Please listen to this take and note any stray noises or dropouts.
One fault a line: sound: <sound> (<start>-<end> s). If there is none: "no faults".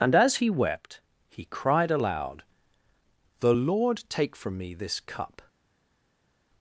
no faults